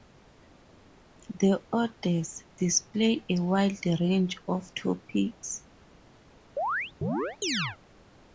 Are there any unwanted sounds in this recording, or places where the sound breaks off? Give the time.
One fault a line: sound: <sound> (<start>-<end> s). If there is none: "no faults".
sound: chirp (6.6-7.8 s)